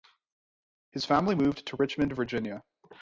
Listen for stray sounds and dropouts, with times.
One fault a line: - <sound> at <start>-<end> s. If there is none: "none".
none